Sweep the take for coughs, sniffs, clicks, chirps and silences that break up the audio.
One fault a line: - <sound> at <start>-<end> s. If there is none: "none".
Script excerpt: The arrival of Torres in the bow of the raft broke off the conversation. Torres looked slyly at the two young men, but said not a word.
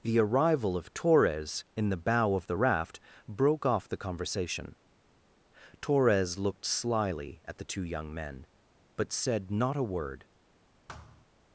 - thud at 10.9-11.3 s